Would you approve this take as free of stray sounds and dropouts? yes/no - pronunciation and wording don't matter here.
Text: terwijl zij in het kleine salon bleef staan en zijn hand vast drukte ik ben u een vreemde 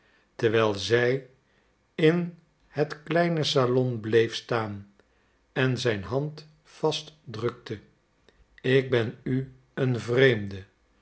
yes